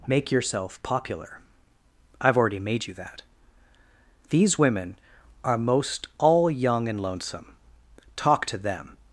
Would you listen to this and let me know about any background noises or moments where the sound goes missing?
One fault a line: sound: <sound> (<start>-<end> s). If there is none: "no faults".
no faults